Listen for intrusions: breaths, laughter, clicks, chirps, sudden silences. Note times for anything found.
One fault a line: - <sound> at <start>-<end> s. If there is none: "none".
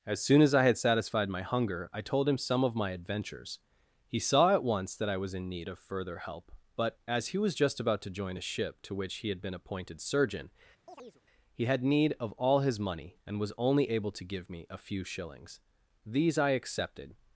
- chirp at 10.9-11.2 s